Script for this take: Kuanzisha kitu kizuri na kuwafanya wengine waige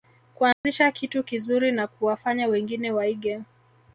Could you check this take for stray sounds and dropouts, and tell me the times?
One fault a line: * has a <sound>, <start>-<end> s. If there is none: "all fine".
* has a dropout, 0.5-0.6 s